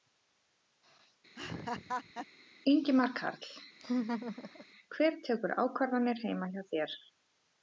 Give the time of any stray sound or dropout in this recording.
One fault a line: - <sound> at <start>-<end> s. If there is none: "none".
- laugh at 1.4-2.3 s
- laugh at 3.8-4.7 s